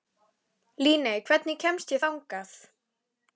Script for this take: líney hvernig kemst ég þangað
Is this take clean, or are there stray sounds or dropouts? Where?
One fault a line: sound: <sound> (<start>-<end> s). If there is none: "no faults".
no faults